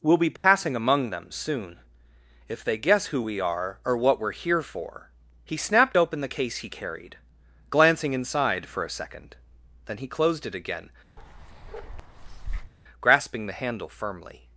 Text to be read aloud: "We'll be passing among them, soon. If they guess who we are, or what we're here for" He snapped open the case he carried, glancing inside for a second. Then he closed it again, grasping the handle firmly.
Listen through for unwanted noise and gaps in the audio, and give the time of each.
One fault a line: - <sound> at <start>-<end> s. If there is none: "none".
- dropout at 0.4-0.4 s
- bark at 11.2-12.7 s